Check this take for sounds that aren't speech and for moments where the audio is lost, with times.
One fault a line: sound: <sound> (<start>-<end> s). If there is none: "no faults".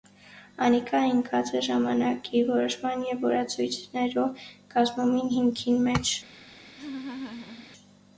sound: laugh (6.8-7.7 s)